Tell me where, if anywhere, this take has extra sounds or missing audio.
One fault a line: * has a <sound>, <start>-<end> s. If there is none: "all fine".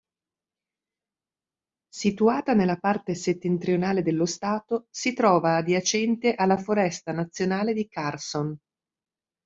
all fine